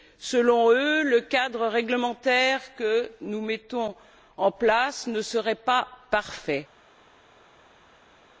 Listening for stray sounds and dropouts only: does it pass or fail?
pass